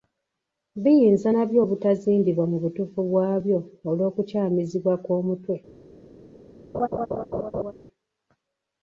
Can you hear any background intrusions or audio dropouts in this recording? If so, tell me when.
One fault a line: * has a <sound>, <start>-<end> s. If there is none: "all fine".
* has a laugh, 6.7-7.7 s